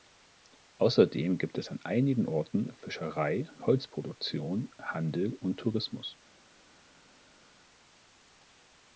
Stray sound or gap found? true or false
false